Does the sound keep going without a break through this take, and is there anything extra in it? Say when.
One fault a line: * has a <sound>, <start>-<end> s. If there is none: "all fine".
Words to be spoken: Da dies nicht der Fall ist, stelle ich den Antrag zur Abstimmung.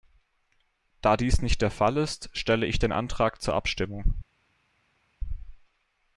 all fine